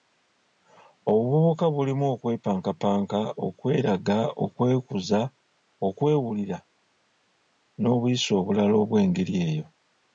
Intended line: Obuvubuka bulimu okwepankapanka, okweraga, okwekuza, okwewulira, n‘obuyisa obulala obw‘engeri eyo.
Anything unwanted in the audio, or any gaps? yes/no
no